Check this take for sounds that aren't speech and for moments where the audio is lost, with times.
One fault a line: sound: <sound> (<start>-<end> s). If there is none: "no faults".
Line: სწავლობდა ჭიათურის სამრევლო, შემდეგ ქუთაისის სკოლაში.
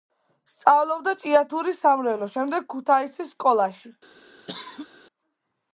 sound: cough (4.5-4.9 s)